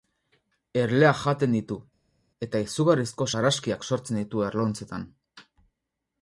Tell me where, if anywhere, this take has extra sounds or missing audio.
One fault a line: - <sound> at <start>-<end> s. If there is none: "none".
none